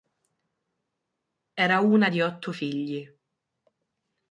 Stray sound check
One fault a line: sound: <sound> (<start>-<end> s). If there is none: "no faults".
no faults